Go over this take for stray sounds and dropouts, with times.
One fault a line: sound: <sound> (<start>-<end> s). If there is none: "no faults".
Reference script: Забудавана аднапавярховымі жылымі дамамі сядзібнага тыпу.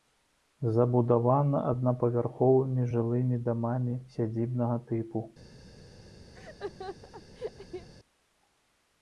sound: laugh (6.3-7.9 s)